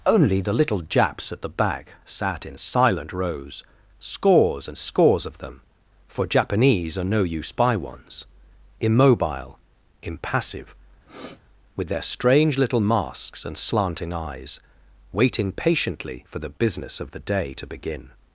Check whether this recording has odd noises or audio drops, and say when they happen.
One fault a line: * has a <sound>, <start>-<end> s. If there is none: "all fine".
* has a sniff, 11.1-11.4 s